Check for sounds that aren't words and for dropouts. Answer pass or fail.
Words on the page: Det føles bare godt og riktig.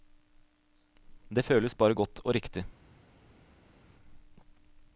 pass